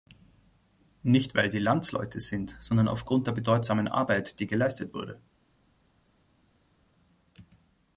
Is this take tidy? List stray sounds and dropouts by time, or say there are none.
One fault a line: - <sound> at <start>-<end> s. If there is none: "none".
none